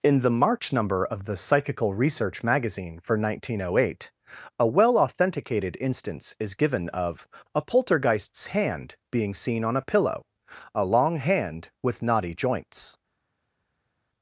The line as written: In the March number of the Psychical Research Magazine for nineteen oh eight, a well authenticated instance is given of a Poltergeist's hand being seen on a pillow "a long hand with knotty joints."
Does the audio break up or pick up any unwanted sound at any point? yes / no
no